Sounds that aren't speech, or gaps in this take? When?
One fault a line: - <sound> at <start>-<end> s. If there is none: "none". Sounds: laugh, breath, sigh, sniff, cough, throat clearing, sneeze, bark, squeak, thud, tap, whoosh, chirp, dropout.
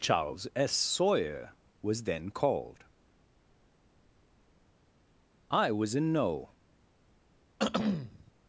- throat clearing at 7.6-8.3 s